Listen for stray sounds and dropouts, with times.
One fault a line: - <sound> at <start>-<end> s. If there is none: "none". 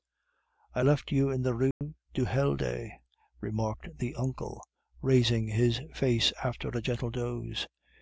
- dropout at 1.7-1.8 s